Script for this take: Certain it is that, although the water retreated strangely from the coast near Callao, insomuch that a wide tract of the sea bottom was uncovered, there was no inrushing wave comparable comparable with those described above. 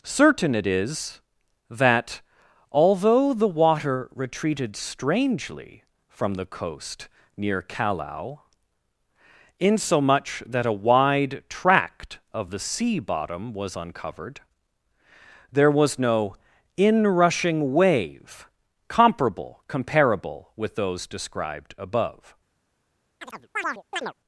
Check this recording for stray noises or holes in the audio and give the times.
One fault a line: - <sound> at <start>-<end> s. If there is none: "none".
- chirp at 23.2-24.1 s